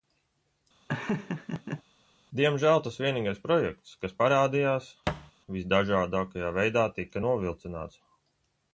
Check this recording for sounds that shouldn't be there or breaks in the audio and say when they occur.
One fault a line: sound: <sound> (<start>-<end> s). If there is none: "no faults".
sound: laugh (0.9-1.8 s)
sound: thud (5.1-5.3 s)